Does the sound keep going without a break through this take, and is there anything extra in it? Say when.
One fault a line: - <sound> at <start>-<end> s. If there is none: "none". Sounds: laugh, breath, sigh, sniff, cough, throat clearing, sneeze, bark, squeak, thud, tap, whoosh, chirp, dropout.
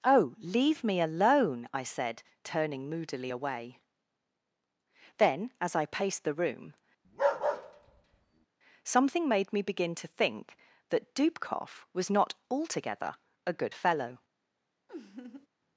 - bark at 7.0-8.5 s
- laugh at 14.9-15.5 s